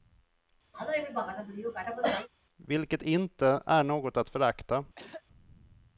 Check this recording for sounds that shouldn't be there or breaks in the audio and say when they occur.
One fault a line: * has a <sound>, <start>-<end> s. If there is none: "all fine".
* has a cough, 0.7-2.3 s
* has a throat clearing, 5.0-5.2 s